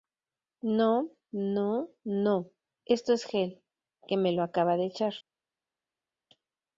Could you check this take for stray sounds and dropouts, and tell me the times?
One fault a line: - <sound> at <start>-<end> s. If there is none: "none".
none